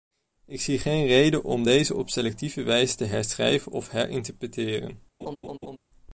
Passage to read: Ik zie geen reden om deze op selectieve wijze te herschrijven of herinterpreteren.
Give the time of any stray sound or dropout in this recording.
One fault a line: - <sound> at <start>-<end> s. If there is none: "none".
- laugh at 5.2-5.8 s